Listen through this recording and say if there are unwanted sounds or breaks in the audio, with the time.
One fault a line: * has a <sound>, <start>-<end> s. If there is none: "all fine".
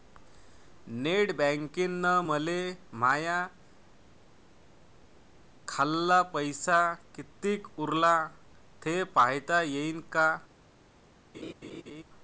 * has a laugh, 11.3-12.0 s